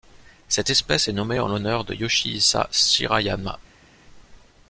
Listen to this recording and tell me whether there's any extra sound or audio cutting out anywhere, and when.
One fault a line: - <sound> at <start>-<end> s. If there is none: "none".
none